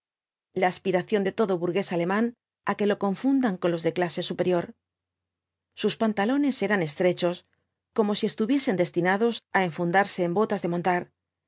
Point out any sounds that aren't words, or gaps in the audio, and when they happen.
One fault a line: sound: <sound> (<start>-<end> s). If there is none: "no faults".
no faults